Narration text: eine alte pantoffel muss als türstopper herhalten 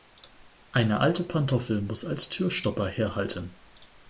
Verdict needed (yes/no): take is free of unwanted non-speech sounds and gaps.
yes